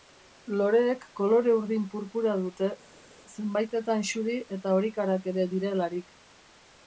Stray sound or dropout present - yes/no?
no